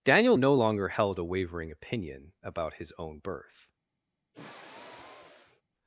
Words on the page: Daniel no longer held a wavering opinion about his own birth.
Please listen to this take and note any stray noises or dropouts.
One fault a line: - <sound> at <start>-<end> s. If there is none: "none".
- sigh at 4.3-5.6 s